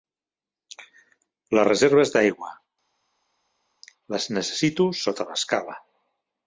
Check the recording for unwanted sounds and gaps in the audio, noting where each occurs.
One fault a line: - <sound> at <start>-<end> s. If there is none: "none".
none